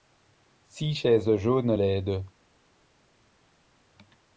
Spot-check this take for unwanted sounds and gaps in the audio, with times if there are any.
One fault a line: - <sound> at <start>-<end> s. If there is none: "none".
none